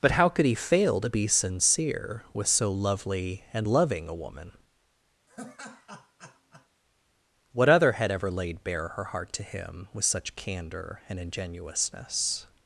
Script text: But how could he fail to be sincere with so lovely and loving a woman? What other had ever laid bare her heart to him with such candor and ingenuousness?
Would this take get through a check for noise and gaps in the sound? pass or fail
fail